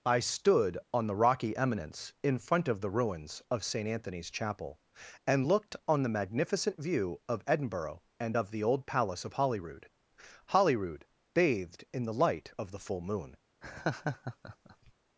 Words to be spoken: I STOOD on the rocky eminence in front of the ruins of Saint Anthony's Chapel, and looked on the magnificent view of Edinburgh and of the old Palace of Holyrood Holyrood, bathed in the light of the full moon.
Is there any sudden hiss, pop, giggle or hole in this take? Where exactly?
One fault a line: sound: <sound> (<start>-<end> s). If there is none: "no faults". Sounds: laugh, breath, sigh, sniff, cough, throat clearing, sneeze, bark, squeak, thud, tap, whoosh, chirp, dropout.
sound: laugh (13.6-14.9 s)